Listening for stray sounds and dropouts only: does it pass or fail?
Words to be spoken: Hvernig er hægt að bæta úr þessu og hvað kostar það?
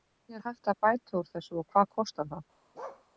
fail